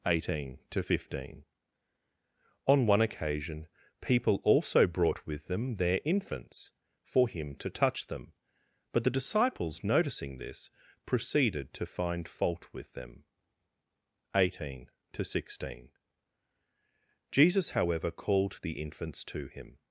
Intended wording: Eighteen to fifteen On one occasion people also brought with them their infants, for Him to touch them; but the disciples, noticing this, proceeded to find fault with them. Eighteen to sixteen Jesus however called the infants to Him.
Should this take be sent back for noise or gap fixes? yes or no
no